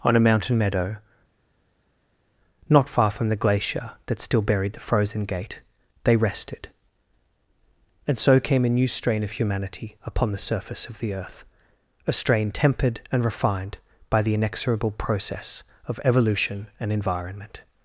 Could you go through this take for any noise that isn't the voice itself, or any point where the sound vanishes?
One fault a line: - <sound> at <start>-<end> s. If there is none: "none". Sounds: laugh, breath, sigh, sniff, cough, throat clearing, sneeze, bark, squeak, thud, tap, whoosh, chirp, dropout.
none